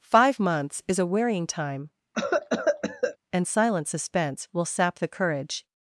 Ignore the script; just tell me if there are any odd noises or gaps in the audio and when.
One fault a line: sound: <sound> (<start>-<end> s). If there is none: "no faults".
sound: cough (2.1-3.2 s)